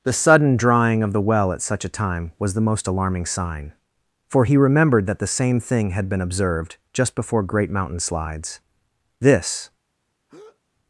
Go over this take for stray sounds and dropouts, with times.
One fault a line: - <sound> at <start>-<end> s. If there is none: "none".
- breath at 10.3-10.6 s